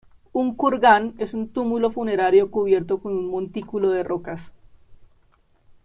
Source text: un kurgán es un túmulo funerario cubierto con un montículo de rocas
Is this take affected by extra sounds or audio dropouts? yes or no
no